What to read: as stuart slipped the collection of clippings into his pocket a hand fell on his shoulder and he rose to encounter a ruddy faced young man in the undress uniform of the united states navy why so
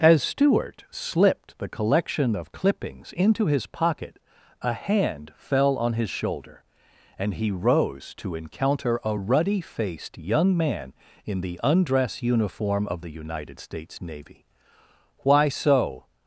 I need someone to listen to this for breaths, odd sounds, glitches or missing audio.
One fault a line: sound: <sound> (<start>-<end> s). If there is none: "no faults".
no faults